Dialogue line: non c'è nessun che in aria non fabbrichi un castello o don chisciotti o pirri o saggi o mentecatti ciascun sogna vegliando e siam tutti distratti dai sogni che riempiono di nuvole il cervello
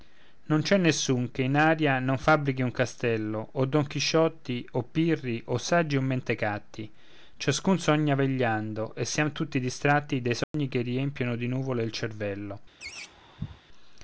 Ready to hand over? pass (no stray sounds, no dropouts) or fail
fail